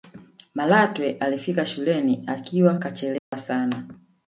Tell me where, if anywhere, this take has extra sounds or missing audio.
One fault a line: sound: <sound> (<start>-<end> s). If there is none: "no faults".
sound: dropout (3.2-3.3 s)